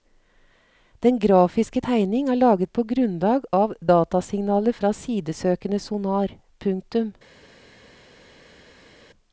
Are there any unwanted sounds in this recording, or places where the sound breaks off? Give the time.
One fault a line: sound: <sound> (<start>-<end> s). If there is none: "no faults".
no faults